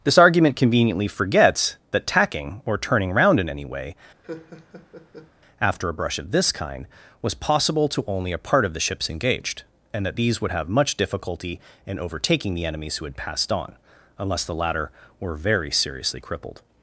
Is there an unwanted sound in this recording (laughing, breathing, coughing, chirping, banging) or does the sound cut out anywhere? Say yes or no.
yes